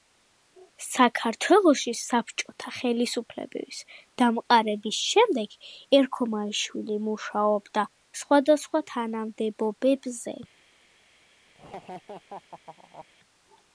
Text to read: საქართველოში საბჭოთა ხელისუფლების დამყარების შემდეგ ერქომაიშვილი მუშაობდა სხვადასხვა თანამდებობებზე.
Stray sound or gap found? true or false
true